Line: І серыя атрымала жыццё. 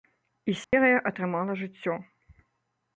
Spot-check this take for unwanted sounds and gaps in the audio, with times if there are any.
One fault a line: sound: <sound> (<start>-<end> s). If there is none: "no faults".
sound: dropout (0.6-0.7 s)